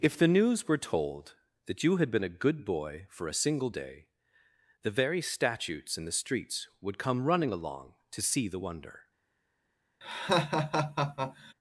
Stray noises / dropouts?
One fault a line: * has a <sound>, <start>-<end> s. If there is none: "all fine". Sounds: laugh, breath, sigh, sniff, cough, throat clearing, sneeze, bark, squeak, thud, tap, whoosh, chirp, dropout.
* has a laugh, 10.0-11.5 s